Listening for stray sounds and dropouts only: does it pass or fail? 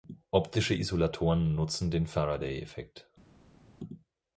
pass